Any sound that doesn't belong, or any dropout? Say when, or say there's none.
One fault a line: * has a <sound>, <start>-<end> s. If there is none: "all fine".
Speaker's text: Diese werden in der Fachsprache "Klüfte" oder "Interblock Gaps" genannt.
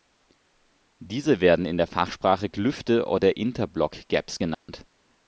* has a dropout, 4.5-4.7 s